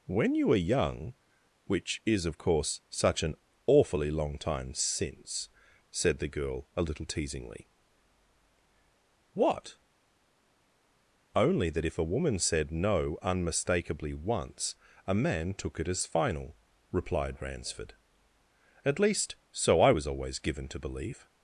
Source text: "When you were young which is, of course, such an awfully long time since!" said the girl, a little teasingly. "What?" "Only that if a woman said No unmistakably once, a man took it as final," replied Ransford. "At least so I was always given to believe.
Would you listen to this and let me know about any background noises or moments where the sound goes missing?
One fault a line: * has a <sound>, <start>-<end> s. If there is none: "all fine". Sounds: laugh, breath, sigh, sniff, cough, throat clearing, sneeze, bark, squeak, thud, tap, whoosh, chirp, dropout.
all fine